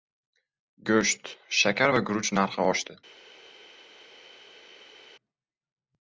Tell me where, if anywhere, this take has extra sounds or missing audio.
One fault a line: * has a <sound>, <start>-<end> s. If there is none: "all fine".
all fine